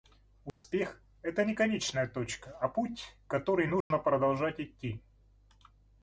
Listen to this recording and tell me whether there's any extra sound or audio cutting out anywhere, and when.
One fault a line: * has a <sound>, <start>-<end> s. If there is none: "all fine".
* has a dropout, 0.5-0.6 s
* has a dropout, 3.8-3.9 s